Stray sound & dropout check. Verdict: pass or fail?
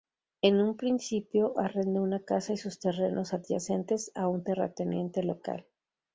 pass